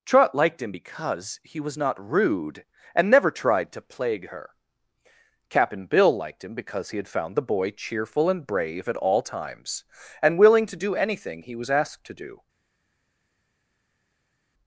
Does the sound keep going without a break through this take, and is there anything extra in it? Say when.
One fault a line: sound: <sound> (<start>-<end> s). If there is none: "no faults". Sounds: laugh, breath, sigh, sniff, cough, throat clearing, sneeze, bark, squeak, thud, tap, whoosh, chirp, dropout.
no faults